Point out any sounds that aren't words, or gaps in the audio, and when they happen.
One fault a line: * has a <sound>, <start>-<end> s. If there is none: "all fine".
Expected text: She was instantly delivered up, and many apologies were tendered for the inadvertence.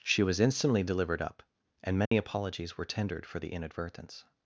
* has a dropout, 2.1-2.1 s